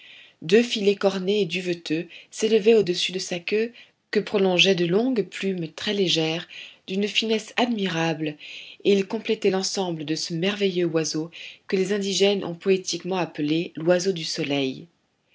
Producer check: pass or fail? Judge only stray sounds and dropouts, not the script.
pass